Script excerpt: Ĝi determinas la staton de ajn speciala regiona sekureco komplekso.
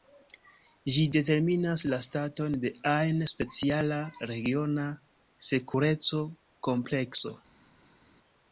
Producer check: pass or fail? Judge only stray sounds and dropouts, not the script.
pass